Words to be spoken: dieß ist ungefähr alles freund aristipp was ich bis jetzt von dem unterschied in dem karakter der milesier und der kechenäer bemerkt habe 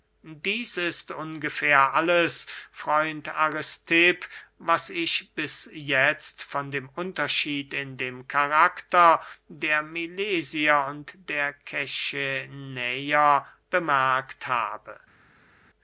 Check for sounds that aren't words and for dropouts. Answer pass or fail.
pass